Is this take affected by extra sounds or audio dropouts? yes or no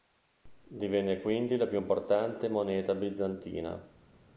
no